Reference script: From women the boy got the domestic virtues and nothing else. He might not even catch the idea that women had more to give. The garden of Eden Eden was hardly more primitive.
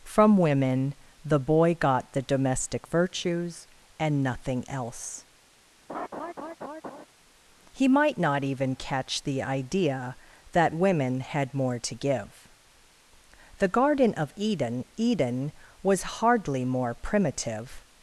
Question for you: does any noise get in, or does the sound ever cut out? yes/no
yes